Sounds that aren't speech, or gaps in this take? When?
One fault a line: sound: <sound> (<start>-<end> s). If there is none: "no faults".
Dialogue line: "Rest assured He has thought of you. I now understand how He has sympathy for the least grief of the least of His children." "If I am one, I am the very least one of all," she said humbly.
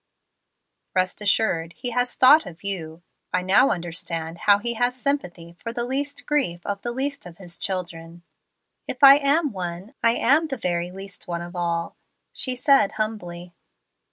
no faults